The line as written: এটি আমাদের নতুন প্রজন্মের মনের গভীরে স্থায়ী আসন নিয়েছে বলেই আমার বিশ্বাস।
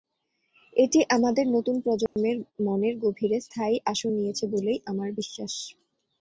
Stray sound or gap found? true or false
true